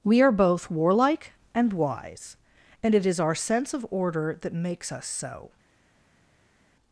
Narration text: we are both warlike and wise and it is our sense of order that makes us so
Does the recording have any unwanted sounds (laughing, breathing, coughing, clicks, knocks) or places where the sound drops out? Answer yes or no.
no